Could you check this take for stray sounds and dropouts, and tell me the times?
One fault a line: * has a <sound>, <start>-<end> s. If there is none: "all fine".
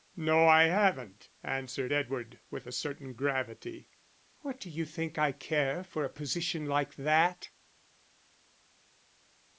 all fine